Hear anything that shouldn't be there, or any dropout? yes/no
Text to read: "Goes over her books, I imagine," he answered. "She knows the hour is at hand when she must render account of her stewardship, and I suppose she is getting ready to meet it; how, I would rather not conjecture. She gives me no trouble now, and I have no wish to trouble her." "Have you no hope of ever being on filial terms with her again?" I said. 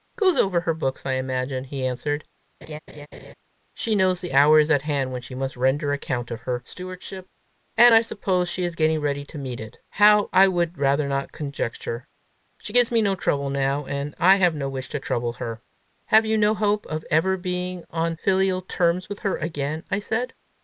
yes